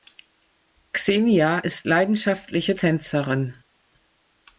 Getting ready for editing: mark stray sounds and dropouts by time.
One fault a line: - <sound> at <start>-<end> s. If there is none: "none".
none